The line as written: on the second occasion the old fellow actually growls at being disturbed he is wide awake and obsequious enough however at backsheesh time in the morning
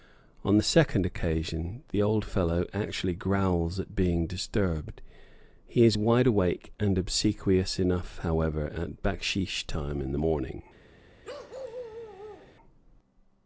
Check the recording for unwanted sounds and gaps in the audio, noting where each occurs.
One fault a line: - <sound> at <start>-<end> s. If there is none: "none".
- bark at 11.2-12.6 s